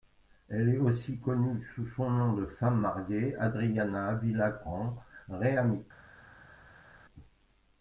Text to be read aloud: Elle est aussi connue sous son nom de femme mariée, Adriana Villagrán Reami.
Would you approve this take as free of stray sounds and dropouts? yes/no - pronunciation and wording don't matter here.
yes